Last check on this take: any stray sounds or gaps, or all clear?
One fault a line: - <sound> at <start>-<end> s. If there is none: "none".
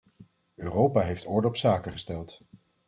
none